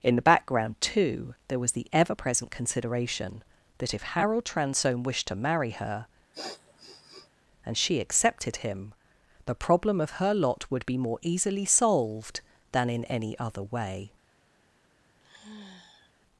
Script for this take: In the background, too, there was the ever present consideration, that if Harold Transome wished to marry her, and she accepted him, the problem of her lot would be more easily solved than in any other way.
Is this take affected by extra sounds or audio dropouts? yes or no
yes